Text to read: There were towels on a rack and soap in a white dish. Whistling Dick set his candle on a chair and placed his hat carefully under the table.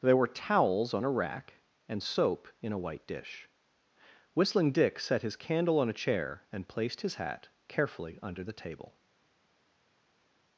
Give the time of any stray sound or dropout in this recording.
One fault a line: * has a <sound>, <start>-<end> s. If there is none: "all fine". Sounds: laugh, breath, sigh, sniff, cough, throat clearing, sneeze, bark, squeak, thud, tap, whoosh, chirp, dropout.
all fine